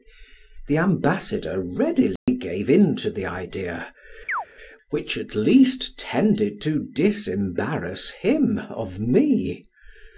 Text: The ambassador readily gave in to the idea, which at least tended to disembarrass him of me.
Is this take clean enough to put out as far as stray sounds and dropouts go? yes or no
no